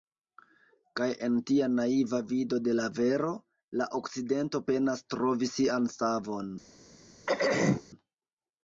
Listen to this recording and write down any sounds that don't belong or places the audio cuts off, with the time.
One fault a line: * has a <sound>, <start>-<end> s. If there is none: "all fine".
* has a throat clearing, 7.3-7.8 s